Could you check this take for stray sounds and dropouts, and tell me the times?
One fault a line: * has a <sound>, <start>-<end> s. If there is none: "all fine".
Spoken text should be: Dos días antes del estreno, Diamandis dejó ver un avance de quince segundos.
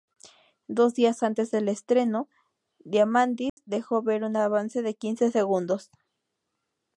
* has a dropout, 3.5-3.6 s